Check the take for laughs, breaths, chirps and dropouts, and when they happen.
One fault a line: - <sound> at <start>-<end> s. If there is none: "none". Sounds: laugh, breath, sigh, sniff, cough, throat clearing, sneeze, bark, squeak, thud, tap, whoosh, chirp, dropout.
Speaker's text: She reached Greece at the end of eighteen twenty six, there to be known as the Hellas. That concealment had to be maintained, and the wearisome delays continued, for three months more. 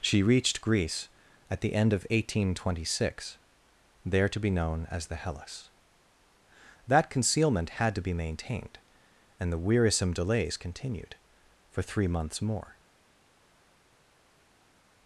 none